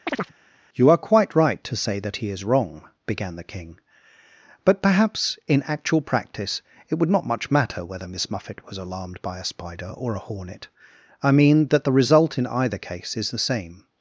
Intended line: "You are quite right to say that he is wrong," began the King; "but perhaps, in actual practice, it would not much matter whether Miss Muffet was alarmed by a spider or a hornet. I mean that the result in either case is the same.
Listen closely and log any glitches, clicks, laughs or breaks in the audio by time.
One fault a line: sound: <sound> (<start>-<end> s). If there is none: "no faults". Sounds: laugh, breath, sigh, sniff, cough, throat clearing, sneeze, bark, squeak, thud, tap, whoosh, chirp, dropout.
sound: chirp (0.1-0.3 s)